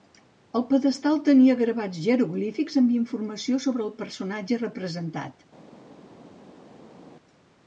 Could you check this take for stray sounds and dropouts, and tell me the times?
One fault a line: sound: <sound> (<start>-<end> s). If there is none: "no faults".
no faults